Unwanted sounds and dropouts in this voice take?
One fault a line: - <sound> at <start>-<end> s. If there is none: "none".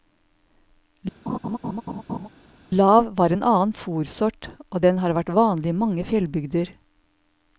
- laugh at 1.3-2.3 s